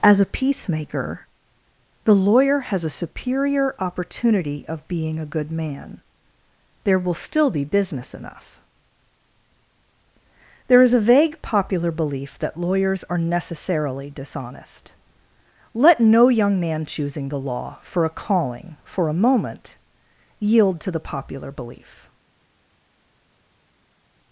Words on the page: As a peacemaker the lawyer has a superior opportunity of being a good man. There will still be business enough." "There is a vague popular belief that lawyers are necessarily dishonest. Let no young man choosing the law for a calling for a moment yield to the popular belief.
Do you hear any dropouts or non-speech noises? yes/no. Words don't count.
no